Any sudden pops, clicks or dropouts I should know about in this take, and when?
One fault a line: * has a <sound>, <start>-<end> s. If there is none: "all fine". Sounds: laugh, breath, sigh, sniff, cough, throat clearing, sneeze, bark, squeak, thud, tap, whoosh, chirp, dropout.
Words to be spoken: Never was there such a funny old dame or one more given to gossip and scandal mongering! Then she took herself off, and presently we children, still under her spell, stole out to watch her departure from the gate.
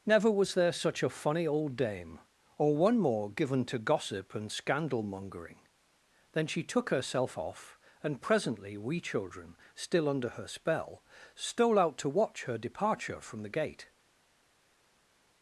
all fine